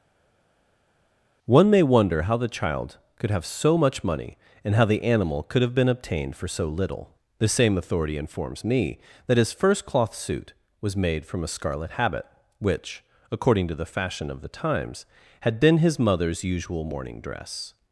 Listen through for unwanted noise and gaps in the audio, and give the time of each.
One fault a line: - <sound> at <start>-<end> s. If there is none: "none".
none